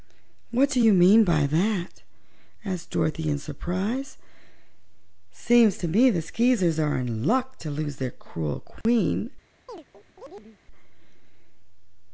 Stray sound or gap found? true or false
true